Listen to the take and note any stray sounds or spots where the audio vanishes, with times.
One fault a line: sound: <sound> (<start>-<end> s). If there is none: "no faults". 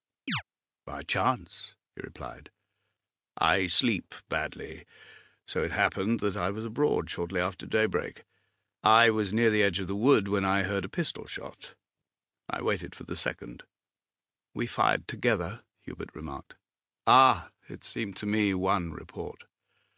sound: chirp (0.3-0.4 s)